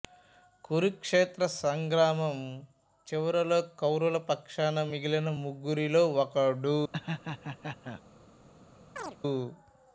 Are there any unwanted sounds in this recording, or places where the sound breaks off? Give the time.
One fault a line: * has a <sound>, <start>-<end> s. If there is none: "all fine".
* has a laugh, 6.9-8.0 s
* has a chirp, 9.0-9.2 s